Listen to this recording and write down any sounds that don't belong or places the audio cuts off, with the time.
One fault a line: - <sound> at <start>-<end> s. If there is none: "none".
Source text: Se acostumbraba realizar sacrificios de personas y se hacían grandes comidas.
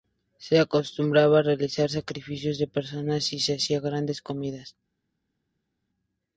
none